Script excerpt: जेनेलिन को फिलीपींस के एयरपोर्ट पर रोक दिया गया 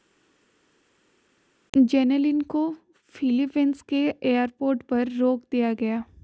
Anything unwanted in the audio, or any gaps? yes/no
no